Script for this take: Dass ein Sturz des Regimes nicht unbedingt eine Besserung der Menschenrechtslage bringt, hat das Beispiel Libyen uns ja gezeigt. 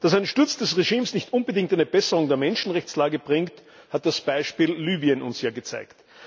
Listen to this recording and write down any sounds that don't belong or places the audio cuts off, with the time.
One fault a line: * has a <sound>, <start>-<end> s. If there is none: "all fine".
all fine